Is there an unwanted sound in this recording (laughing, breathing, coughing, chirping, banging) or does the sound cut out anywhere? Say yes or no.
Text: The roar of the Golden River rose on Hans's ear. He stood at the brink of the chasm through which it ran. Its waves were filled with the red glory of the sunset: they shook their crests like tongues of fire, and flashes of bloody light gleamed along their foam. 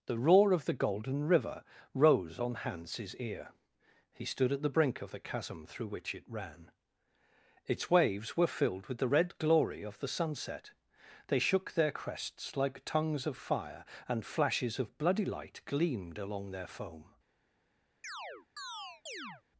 yes